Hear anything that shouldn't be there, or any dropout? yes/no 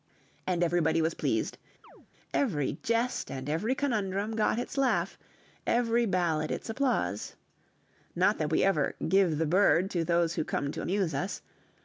yes